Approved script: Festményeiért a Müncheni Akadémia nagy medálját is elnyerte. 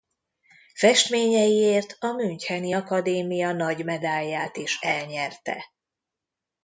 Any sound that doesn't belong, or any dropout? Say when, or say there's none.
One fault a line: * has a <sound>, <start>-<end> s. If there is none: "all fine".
all fine